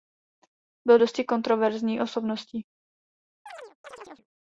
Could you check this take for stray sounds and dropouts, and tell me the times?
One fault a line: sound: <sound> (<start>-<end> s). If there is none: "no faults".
sound: chirp (3.5-4.3 s)